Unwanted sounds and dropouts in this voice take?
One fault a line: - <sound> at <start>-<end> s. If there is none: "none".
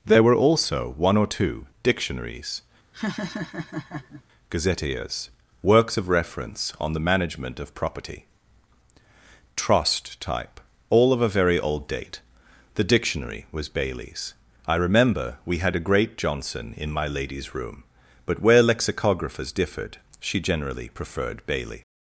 - laugh at 2.9-4.2 s